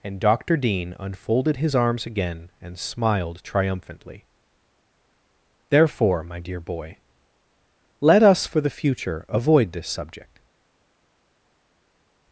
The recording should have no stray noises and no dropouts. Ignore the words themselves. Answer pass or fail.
pass